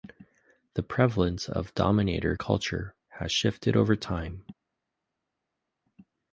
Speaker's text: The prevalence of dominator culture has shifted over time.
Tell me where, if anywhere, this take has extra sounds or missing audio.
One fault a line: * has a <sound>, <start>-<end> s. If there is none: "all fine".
all fine